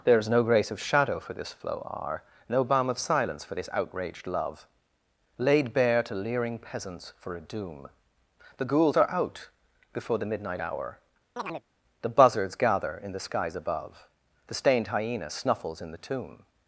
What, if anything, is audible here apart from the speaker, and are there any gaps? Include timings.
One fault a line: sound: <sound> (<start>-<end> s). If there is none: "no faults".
sound: chirp (11.4-11.6 s)